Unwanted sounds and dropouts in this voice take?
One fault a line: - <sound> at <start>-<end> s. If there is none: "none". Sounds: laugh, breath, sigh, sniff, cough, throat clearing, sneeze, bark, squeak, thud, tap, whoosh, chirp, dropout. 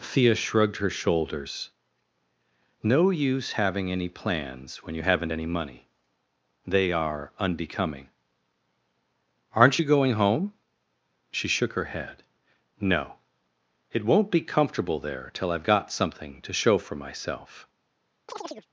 - chirp at 18.3-18.7 s